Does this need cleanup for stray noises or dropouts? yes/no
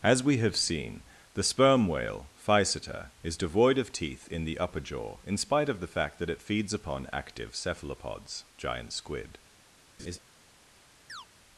yes